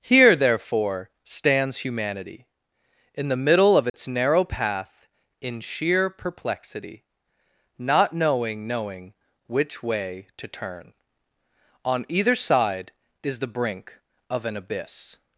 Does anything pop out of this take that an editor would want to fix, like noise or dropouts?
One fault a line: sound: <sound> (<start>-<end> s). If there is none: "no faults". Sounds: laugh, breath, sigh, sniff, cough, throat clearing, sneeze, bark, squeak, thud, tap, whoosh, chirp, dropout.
sound: dropout (3.9-3.9 s)